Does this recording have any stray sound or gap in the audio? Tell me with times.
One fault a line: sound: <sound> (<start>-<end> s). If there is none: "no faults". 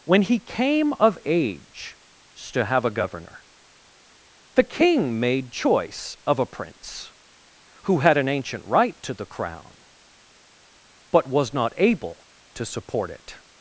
no faults